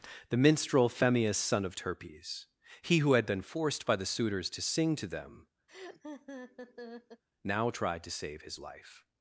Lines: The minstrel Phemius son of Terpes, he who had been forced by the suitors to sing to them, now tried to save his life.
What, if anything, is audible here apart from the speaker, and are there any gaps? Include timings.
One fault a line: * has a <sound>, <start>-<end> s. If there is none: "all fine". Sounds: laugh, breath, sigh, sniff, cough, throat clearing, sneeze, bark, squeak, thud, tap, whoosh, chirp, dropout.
* has a laugh, 5.7-7.2 s